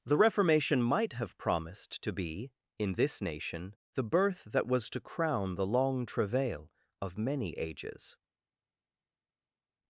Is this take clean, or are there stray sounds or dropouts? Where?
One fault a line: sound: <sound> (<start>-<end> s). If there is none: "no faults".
no faults